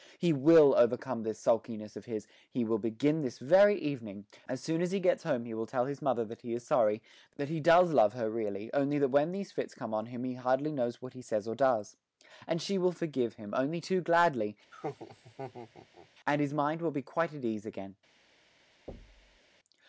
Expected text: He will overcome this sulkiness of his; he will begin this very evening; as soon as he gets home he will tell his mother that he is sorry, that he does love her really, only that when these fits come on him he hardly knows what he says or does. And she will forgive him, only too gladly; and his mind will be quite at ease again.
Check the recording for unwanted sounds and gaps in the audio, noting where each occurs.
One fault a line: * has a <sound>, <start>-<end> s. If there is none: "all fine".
* has a laugh, 14.7-16.1 s
* has a thud, 18.9-19.4 s